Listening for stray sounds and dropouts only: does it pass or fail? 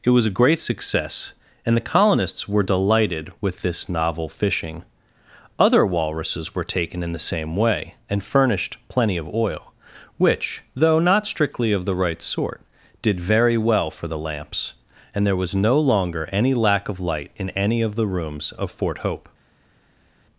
pass